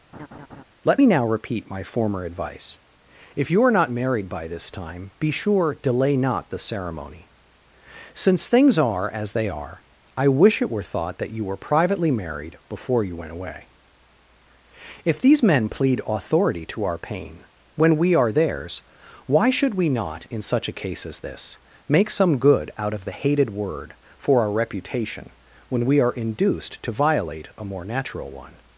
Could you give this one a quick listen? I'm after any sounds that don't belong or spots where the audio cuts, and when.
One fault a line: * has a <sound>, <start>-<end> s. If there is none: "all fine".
* has a laugh, 0.1-0.6 s